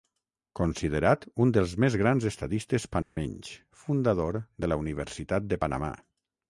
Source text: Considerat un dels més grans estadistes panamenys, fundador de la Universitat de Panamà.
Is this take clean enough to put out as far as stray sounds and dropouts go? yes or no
no